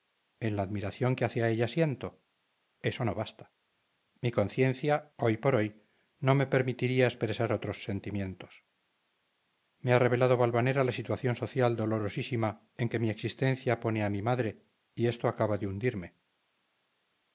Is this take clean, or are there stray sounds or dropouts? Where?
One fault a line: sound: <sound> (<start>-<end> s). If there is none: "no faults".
no faults